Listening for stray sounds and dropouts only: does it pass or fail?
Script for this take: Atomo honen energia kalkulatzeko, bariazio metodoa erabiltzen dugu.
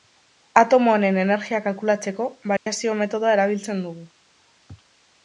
fail